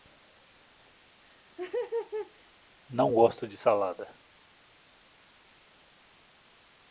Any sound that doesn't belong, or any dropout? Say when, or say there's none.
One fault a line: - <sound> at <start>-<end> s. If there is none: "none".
- laugh at 1.2-2.5 s